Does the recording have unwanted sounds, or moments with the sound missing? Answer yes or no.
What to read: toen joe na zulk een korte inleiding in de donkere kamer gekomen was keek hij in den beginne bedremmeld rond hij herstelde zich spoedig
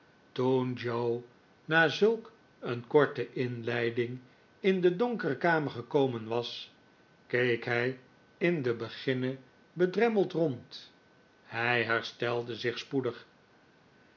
no